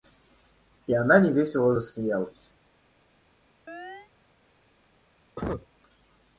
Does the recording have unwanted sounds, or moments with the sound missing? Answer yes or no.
yes